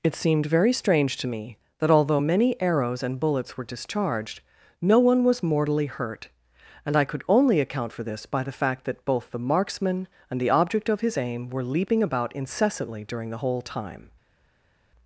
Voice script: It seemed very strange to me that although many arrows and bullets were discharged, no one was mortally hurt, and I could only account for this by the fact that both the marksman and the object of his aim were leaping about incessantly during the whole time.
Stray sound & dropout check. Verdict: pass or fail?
pass